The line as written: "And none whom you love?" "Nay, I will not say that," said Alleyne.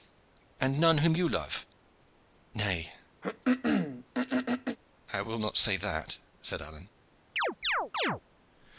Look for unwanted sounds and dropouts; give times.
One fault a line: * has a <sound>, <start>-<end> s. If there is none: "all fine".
* has a throat clearing, 3.2-4.8 s
* has a chirp, 7.4-8.2 s